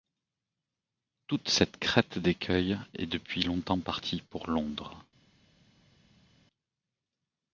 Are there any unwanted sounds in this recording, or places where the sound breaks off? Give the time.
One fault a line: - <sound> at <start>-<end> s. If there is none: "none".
none